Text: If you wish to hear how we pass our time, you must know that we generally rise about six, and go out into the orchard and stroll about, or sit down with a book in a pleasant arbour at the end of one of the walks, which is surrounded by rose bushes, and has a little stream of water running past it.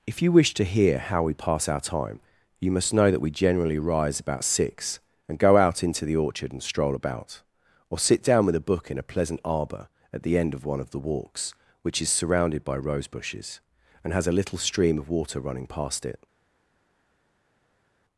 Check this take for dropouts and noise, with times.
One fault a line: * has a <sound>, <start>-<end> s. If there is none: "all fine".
all fine